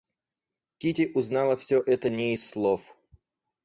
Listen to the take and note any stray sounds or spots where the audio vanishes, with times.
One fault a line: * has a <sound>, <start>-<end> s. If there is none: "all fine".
all fine